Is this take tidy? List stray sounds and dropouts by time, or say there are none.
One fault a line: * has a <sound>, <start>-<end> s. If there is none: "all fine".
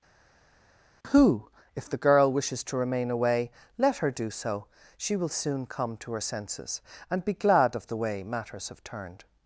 all fine